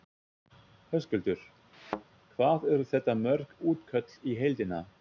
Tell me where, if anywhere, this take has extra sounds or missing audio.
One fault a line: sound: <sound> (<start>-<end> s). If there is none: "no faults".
sound: thud (1.7-2.0 s)